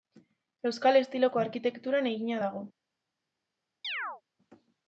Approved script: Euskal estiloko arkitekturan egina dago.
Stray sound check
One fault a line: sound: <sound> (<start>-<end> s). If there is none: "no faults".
sound: chirp (3.8-4.2 s)